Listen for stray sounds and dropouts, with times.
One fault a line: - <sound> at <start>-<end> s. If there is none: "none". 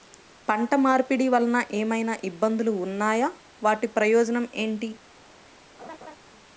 - laugh at 5.8-6.2 s